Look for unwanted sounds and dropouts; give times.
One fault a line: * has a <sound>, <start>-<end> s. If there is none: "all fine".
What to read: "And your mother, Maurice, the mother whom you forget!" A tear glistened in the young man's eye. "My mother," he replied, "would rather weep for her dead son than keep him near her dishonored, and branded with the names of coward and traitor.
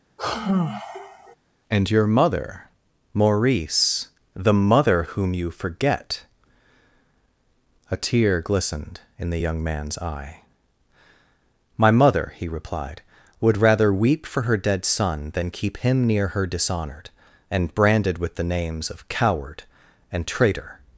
* has a sigh, 0.2-1.4 s